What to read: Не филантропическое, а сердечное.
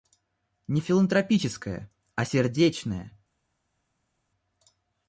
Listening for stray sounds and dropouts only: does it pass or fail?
pass